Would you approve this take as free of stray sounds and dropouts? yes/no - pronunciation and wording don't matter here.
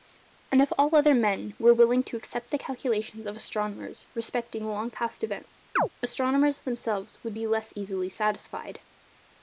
no